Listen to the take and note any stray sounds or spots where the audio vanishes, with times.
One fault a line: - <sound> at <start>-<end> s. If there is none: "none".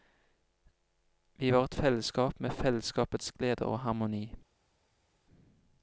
none